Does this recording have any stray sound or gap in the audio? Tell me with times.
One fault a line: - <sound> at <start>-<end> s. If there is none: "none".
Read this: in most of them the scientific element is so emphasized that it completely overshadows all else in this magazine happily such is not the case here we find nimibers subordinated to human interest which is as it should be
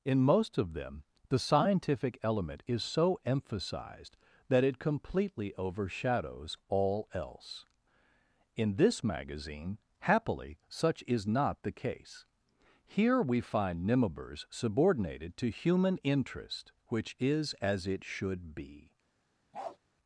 - bark at 19.5-19.8 s